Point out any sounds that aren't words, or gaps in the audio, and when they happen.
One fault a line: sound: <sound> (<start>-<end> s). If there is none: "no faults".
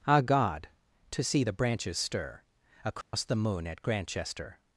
sound: dropout (3.0-3.1 s)